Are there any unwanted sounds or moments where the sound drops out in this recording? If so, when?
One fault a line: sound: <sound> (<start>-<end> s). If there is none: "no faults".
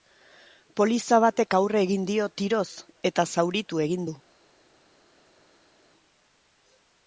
no faults